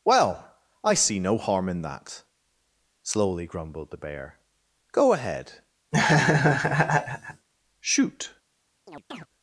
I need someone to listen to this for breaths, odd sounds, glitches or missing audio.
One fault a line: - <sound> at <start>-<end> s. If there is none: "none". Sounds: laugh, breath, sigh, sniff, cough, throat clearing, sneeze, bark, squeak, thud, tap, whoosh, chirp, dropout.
- laugh at 5.9-7.5 s
- chirp at 8.9-9.3 s